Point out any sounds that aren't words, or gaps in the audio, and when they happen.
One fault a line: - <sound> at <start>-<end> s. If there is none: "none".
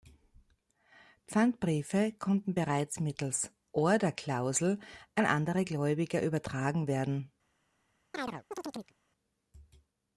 - chirp at 8.1-8.9 s